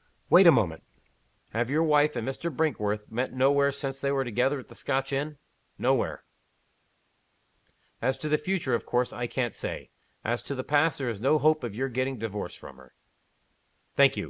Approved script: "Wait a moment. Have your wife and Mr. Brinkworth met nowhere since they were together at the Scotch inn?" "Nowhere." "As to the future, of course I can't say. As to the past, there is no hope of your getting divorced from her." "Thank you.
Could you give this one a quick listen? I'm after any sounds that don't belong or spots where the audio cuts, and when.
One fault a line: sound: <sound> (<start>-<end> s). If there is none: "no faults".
no faults